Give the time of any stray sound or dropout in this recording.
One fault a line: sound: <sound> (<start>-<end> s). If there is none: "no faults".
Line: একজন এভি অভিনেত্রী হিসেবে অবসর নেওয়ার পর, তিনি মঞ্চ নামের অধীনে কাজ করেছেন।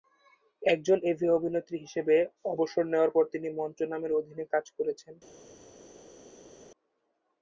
no faults